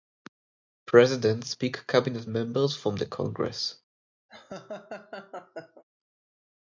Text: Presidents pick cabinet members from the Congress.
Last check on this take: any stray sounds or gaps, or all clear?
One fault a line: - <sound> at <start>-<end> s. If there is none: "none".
- laugh at 4.3-5.8 s